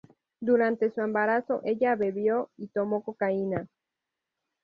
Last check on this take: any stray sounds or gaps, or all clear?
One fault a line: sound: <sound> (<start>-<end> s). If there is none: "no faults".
no faults